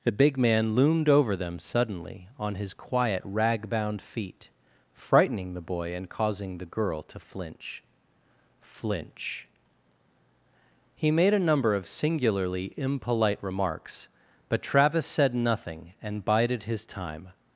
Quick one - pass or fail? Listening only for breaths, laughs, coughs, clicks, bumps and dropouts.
pass